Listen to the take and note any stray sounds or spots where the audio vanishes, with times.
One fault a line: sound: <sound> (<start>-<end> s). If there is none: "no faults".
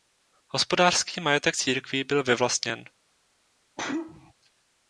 sound: sneeze (3.8-4.3 s)